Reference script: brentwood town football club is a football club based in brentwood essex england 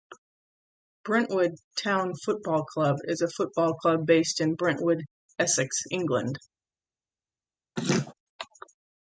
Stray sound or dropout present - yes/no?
yes